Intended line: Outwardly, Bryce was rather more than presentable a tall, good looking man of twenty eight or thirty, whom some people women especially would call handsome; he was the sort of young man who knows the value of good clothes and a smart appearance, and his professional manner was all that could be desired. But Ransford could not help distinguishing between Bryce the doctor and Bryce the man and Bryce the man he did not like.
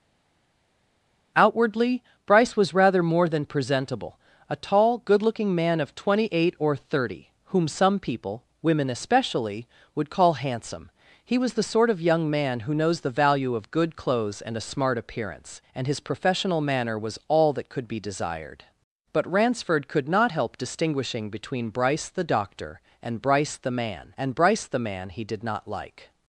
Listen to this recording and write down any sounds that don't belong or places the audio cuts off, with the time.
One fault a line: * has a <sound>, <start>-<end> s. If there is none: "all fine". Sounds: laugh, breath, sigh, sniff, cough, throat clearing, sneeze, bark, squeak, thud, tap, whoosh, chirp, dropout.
all fine